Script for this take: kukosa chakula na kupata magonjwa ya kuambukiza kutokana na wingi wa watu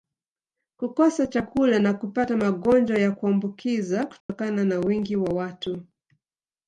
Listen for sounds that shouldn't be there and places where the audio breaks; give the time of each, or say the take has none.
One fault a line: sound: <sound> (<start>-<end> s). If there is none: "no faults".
sound: dropout (4.2-4.3 s)